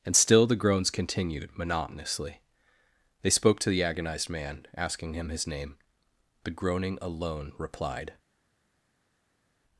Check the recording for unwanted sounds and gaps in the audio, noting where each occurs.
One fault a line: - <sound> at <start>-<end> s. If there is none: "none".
none